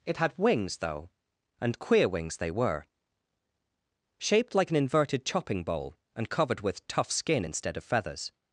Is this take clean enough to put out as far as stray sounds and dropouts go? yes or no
yes